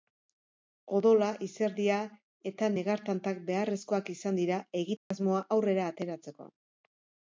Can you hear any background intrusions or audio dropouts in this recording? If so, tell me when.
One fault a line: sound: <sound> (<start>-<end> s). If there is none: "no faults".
sound: dropout (5.0-5.1 s)